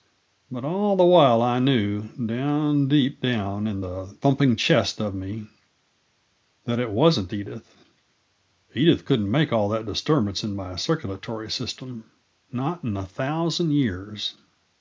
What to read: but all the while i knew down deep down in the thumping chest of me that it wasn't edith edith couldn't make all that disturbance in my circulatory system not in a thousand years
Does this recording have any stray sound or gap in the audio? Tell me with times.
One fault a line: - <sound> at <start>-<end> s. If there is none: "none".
none